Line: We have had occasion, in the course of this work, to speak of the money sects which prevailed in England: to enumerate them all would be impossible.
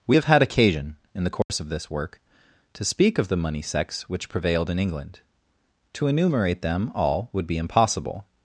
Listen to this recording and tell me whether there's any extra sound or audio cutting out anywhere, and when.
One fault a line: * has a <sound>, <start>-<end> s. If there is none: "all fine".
* has a dropout, 1.4-1.5 s